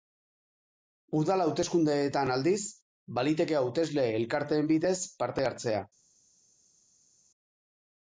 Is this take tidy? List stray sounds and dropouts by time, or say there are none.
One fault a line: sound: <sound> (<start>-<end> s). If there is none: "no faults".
no faults